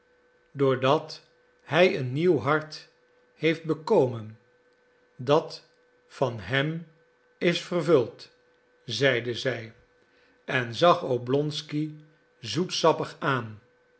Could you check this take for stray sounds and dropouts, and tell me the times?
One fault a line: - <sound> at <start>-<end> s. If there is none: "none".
none